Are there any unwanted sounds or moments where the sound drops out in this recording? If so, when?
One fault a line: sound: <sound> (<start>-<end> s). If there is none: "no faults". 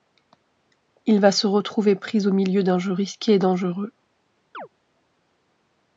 sound: chirp (4.5-4.7 s)